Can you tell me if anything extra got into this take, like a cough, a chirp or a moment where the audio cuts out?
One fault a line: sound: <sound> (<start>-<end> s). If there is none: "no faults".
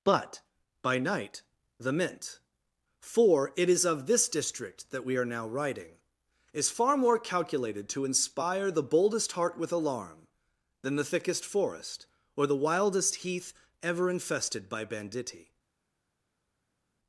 no faults